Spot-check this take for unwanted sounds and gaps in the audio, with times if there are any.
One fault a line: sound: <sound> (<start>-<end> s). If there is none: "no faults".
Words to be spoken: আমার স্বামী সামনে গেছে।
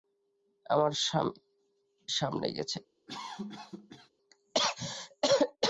sound: cough (3.1-4.1 s)